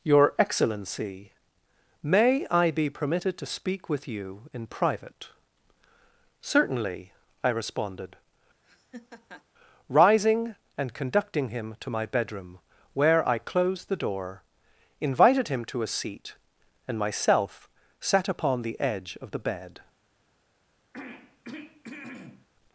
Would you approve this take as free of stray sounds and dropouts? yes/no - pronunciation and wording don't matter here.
no